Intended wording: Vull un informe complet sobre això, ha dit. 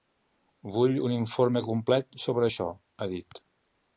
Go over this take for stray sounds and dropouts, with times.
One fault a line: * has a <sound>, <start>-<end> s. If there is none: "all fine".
all fine